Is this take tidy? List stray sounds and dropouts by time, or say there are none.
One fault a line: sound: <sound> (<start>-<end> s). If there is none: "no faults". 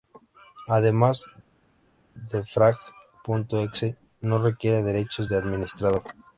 no faults